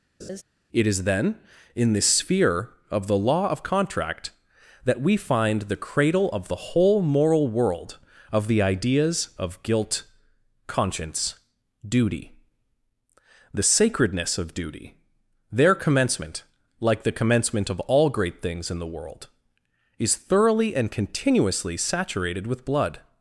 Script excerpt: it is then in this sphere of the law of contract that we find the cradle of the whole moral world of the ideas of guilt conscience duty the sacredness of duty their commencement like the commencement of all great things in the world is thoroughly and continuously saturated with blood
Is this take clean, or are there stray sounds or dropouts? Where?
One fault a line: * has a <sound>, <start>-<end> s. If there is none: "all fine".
* has a laugh, 0.2-0.4 s